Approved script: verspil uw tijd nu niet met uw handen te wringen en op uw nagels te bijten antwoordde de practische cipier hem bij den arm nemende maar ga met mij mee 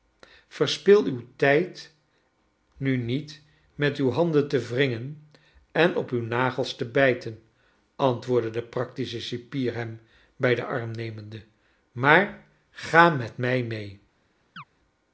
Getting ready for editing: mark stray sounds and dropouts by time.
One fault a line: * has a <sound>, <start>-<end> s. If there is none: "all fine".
* has a chirp, 14.6-14.6 s